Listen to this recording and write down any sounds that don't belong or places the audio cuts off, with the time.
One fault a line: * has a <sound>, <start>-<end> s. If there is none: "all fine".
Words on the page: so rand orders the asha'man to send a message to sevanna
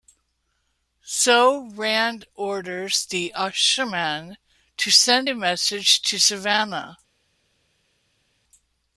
all fine